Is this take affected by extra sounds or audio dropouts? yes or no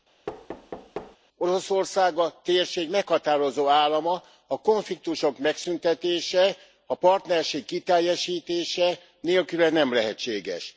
yes